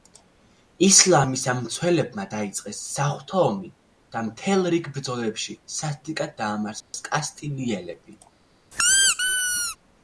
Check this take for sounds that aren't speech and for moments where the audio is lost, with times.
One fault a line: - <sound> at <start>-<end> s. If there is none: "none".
- dropout at 6.8-6.9 s
- squeak at 8.7-9.8 s